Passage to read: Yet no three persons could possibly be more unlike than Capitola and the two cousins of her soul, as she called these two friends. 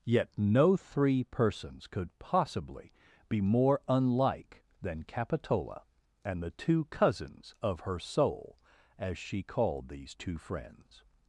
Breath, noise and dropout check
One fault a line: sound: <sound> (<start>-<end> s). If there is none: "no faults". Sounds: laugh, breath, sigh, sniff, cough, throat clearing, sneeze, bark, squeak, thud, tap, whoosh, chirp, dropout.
no faults